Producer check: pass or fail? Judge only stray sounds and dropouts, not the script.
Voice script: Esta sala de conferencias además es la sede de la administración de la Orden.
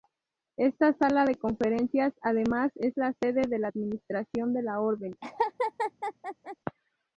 fail